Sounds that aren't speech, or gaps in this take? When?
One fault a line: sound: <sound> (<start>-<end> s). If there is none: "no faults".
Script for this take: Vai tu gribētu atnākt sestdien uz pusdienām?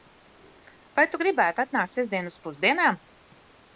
no faults